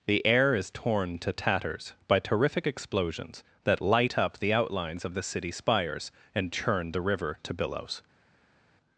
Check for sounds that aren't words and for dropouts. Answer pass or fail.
pass